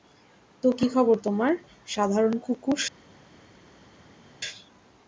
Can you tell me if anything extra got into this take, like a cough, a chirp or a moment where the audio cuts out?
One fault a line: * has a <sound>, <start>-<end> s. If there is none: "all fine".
all fine